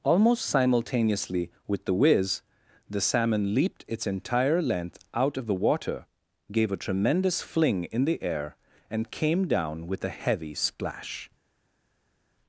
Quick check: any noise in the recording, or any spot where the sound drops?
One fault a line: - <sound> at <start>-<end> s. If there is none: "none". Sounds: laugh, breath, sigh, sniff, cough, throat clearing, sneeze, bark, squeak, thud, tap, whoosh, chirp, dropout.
none